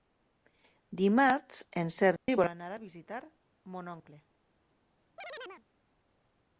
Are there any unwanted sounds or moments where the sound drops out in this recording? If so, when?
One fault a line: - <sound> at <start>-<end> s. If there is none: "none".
- dropout at 2.2-2.3 s
- chirp at 5.2-5.7 s